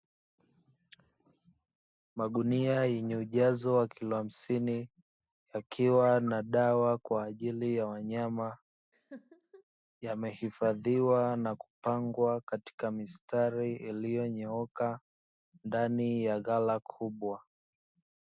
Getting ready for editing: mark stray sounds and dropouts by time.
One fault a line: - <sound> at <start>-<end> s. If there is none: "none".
- laugh at 8.9-9.6 s